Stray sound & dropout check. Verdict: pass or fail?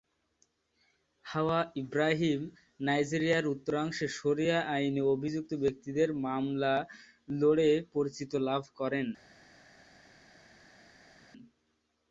pass